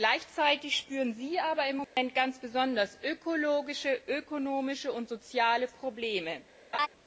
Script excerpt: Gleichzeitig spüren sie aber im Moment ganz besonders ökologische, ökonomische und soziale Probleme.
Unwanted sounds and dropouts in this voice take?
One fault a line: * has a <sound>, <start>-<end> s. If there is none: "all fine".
* has a dropout, 1.8-2.0 s
* has a laugh, 6.7-6.9 s